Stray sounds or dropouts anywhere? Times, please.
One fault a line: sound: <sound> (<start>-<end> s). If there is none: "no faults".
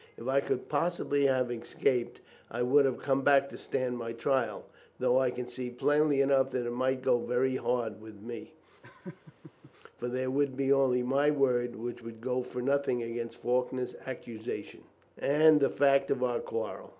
sound: laugh (8.8-9.7 s)